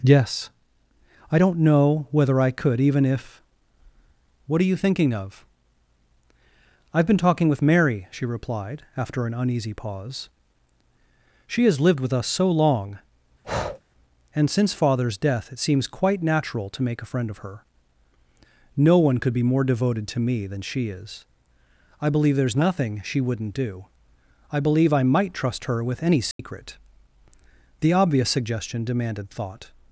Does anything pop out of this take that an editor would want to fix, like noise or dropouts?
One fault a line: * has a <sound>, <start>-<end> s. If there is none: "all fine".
* has a breath, 13.4-13.8 s
* has a dropout, 26.3-26.4 s